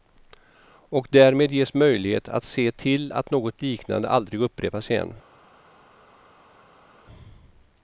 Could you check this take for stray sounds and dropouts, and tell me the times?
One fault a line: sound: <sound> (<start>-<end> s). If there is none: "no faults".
no faults